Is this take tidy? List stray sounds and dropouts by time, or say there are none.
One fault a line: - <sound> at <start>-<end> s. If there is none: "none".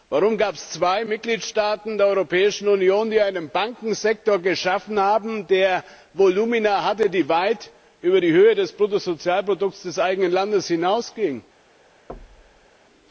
- thud at 12.1-12.7 s